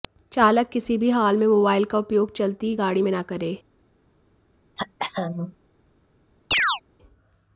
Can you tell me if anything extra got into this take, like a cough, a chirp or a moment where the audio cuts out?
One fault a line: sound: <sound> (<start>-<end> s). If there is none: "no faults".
sound: throat clearing (4.8-5.6 s)
sound: chirp (6.5-6.8 s)